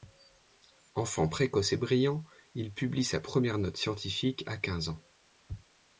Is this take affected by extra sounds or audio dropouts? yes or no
no